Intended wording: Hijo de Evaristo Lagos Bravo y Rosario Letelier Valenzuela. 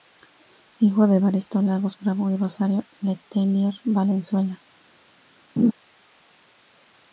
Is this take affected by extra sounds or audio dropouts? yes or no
yes